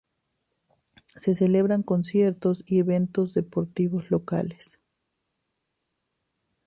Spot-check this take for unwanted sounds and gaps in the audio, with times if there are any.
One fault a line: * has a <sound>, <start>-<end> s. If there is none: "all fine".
all fine